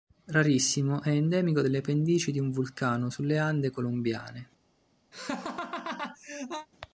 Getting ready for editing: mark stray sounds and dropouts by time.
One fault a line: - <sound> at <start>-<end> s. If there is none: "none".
- laugh at 5.1-6.7 s